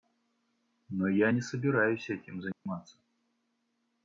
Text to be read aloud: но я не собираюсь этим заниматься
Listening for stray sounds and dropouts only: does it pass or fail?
fail